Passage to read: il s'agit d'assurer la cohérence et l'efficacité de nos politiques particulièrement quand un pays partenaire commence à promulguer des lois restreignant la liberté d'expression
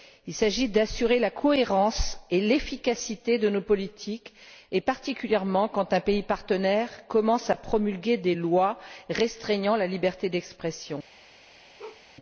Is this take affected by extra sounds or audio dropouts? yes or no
yes